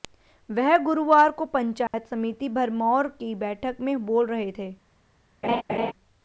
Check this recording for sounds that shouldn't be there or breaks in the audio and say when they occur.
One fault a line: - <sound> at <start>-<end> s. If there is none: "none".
- dropout at 1.9-1.9 s
- laugh at 5.4-5.9 s